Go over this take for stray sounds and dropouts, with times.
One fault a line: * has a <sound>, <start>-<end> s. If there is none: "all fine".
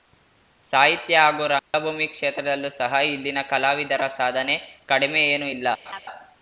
* has a dropout, 1.6-1.7 s
* has a laugh, 5.9-6.0 s